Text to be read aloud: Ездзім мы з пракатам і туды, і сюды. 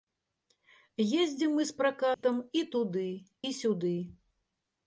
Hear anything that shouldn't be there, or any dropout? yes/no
yes